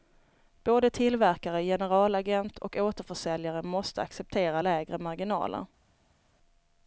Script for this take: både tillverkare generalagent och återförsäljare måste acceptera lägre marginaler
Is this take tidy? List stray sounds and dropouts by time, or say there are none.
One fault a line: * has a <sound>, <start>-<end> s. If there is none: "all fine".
all fine